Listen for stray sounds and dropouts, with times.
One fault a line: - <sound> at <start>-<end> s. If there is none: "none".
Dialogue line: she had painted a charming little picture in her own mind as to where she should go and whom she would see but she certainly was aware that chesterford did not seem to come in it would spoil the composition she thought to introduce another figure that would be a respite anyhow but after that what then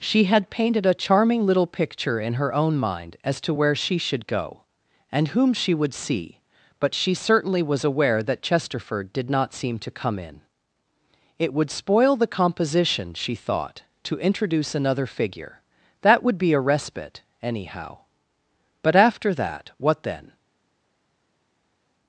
none